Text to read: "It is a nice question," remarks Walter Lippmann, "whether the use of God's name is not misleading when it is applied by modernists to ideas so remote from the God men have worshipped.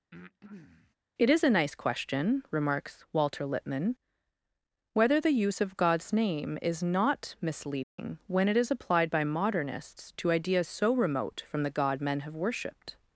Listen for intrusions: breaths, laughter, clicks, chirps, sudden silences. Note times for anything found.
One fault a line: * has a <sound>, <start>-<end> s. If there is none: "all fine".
* has a breath, 0.1-0.9 s
* has a dropout, 7.8-8.0 s